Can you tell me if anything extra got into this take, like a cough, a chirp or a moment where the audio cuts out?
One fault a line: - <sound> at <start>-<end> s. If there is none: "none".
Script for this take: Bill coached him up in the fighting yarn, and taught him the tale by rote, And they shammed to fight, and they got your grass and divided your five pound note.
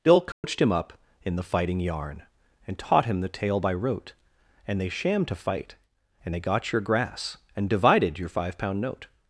- dropout at 0.3-0.4 s